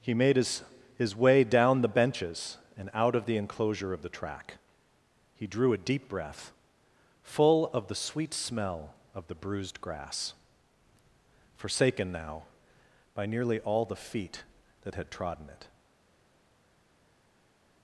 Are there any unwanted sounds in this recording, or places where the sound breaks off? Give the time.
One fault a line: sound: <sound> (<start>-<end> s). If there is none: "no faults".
no faults